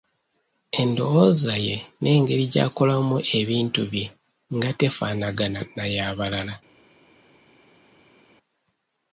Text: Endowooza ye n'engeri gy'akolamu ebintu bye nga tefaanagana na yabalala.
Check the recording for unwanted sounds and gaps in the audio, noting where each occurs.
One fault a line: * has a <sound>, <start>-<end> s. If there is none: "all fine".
all fine